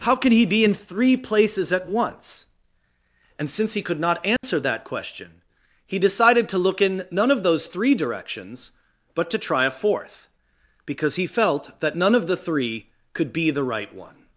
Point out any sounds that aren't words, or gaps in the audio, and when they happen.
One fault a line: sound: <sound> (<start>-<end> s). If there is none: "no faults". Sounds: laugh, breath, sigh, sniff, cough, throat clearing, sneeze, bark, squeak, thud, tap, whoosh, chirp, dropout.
sound: dropout (4.4-4.4 s)